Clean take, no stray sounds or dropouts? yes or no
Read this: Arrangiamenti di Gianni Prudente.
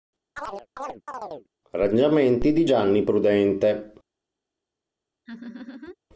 no